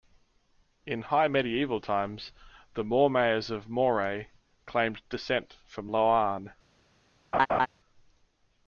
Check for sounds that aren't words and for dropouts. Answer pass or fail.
fail